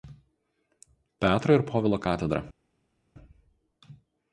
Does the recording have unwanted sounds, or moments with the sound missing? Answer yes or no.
no